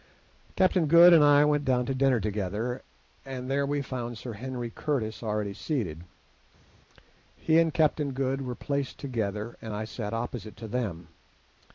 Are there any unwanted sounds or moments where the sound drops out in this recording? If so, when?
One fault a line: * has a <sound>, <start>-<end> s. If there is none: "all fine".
all fine